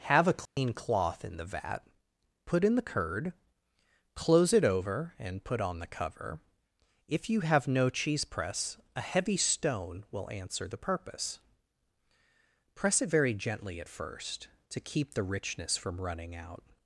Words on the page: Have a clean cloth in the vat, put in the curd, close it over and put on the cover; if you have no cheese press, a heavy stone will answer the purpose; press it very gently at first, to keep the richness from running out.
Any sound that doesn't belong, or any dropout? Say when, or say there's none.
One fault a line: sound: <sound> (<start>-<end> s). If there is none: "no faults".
sound: dropout (0.5-0.6 s)